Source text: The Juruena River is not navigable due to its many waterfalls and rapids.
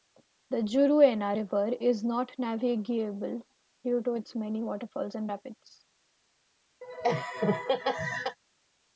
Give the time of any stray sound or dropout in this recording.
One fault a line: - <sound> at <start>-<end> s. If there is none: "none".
- laugh at 6.8-8.4 s